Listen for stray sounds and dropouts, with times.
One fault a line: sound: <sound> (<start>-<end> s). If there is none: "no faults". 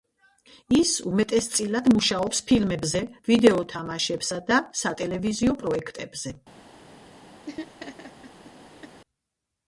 sound: laugh (7.5-9.0 s)